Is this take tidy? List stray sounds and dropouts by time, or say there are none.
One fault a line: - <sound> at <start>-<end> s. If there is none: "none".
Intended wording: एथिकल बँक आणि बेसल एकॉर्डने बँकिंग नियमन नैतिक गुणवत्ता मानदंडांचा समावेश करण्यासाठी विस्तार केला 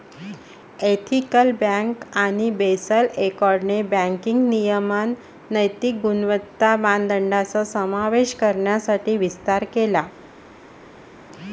none